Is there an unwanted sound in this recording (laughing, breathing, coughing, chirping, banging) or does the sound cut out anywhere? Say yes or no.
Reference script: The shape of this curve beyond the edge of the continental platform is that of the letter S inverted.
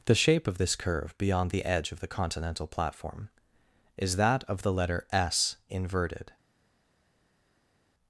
no